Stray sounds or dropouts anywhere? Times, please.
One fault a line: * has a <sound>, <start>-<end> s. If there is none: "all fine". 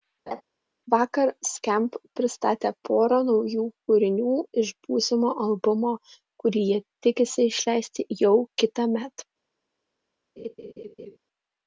* has a laugh, 0.3-0.4 s
* has a laugh, 10.4-11.2 s